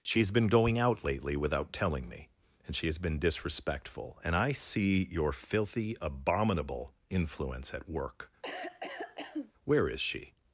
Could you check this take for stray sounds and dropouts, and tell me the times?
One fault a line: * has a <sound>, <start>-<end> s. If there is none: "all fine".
* has a cough, 8.4-9.5 s